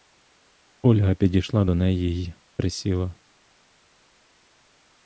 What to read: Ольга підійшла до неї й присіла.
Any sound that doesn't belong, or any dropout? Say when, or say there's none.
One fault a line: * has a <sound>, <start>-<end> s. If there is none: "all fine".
all fine